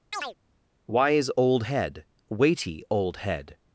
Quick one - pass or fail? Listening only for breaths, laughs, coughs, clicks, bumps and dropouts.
fail